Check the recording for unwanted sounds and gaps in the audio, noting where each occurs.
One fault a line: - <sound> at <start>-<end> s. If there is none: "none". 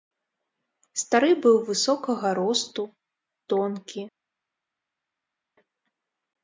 none